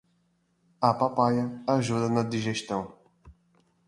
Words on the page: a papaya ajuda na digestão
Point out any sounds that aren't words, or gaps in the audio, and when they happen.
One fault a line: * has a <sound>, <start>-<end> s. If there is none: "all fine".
all fine